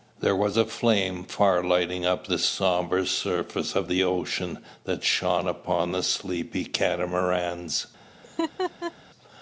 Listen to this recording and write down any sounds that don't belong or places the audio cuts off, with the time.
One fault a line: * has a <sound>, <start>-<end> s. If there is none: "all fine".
* has a laugh, 8.2-8.9 s